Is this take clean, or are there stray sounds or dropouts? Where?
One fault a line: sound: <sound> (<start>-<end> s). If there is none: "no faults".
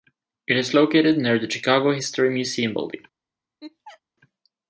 sound: laugh (3.6-4.0 s)